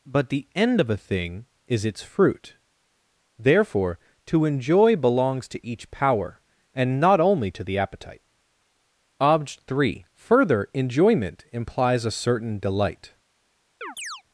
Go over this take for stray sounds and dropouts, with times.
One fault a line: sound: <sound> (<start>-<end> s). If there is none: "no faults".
sound: chirp (13.8-14.2 s)